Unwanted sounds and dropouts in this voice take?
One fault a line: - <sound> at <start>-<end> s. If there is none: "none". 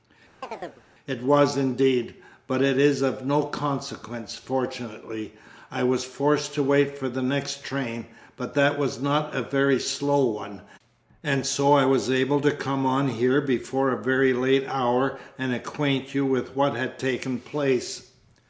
- chirp at 0.4-0.8 s